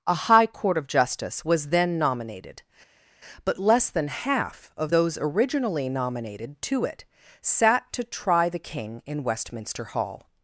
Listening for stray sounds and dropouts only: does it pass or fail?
pass